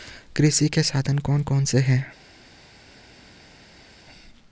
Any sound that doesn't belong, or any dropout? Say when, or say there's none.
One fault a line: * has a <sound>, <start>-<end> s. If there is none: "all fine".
all fine